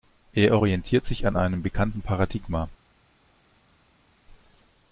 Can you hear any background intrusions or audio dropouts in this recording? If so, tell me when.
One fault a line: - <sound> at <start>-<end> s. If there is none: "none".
none